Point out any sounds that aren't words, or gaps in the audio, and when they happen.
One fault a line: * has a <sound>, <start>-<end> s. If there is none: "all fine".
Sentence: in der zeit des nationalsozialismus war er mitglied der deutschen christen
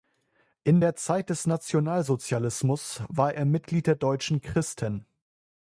all fine